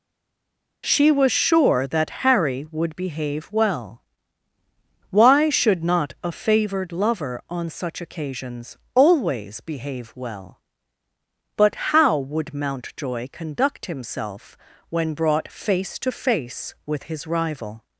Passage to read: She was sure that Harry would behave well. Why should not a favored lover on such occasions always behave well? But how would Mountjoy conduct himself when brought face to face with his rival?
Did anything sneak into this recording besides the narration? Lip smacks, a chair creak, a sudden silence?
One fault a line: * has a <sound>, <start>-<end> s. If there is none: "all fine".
all fine